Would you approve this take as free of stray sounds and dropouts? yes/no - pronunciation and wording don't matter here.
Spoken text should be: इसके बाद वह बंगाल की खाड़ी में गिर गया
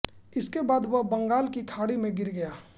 yes